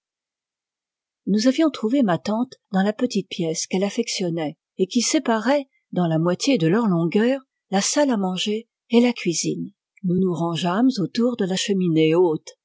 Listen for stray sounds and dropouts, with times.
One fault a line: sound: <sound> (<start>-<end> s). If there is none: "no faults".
no faults